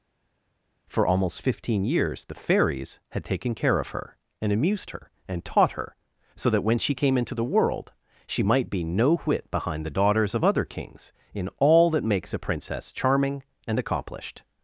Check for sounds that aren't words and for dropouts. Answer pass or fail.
pass